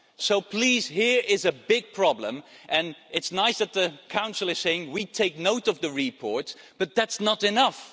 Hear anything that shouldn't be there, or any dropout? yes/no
no